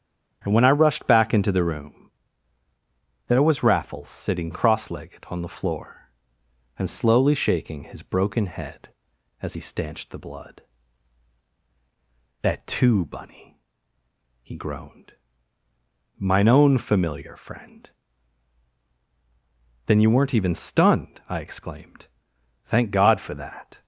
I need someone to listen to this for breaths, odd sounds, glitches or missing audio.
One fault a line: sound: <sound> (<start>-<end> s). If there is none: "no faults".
no faults